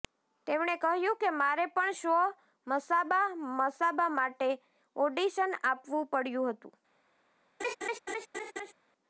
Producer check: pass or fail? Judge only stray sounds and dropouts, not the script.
fail